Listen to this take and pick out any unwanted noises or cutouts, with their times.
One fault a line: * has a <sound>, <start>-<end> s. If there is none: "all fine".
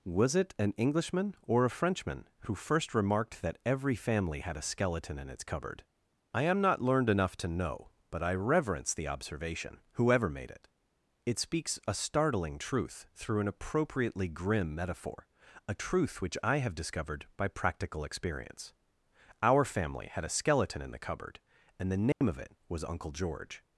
* has a dropout, 22.1-22.2 s